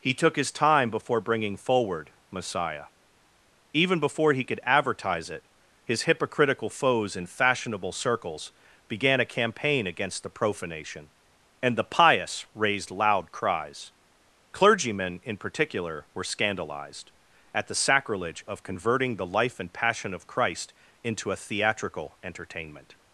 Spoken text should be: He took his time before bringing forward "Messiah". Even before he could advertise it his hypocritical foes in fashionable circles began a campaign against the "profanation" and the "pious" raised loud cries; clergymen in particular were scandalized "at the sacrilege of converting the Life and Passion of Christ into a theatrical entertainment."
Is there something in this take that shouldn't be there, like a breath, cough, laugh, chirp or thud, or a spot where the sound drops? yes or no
no